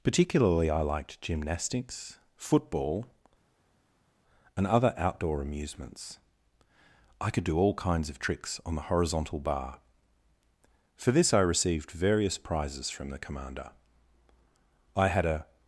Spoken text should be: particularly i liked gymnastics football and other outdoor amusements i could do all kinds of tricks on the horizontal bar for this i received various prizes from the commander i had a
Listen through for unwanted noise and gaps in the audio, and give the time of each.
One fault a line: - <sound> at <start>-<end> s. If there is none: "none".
none